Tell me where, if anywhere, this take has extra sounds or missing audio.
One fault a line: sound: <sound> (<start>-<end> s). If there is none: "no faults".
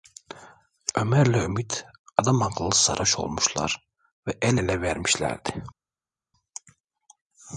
no faults